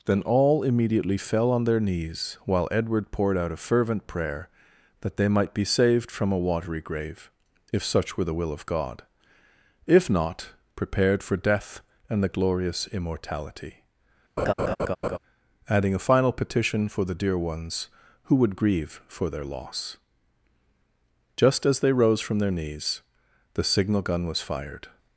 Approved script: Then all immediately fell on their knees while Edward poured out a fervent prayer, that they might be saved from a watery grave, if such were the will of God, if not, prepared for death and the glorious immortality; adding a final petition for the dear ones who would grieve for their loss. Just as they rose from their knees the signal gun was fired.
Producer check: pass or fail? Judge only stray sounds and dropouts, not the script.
fail